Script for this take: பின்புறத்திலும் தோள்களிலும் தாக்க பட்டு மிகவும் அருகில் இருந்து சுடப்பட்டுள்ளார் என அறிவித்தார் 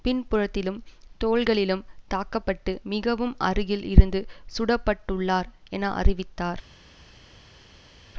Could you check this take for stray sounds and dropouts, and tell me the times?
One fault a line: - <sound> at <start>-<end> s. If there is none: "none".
none